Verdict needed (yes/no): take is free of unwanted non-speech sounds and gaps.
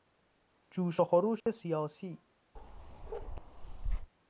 no